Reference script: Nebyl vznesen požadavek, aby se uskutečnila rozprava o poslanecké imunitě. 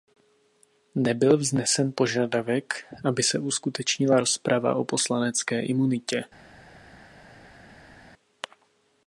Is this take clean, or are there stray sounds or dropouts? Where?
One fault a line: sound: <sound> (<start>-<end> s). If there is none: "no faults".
no faults